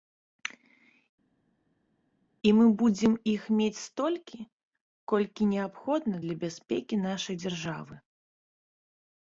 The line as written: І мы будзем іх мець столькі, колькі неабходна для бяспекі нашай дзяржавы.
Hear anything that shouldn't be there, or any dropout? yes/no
no